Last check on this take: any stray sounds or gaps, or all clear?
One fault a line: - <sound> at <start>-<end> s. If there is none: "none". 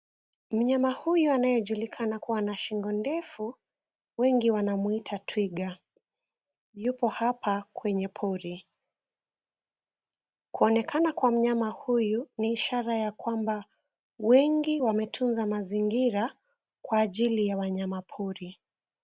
none